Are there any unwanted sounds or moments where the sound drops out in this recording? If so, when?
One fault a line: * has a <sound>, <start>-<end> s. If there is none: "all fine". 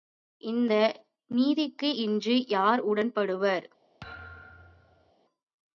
* has a thud, 4.0-5.1 s